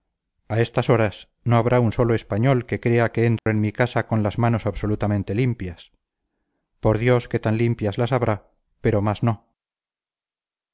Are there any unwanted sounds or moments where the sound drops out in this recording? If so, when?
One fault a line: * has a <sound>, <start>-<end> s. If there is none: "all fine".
* has a dropout, 3.4-3.5 s